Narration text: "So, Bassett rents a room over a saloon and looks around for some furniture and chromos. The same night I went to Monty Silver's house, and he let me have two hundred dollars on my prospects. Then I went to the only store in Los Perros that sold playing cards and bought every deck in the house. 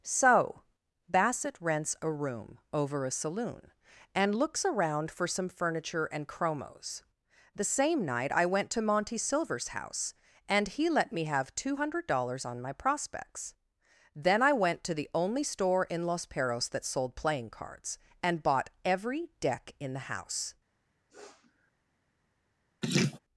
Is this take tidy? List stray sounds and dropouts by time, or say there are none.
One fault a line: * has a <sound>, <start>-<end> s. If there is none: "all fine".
* has a sniff, 21.1-21.7 s
* has a laugh, 22.8-23.2 s